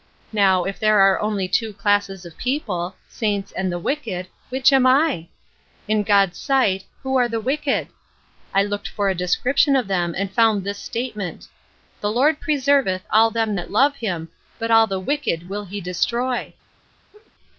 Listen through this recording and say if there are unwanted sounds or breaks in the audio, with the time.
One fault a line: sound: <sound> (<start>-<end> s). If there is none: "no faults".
sound: laugh (17.1-17.3 s)